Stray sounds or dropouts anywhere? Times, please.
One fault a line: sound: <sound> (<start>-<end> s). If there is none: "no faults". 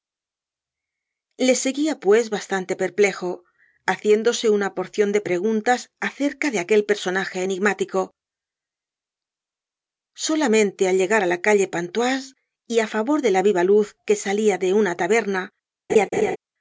sound: laugh (15.9-16.4 s)